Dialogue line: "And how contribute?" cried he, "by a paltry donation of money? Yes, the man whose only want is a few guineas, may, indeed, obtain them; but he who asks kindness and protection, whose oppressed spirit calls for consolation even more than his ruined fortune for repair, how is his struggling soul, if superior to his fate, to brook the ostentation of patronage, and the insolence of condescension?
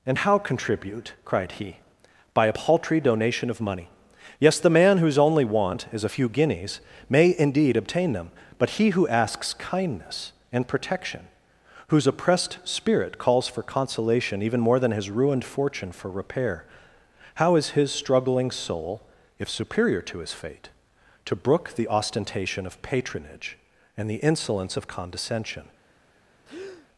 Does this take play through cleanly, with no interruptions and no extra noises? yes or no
no